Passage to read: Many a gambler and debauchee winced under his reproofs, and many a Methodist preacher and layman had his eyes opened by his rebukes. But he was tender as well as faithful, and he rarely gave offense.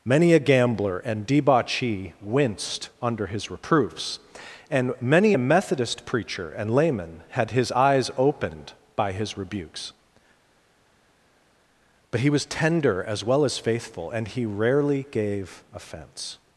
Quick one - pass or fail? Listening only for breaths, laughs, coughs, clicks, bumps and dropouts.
pass